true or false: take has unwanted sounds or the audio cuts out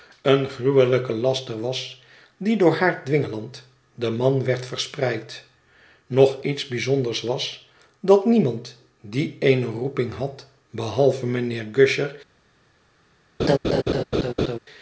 true